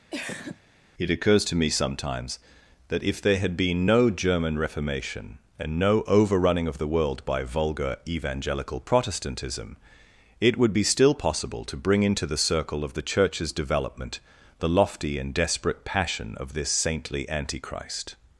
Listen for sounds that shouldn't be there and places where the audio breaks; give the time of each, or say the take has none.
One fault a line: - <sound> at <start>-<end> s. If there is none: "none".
- cough at 0.1-0.6 s